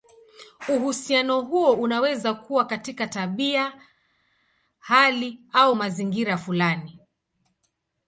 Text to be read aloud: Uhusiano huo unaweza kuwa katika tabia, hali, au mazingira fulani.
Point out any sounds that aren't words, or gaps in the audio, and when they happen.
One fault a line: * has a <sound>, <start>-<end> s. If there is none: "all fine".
all fine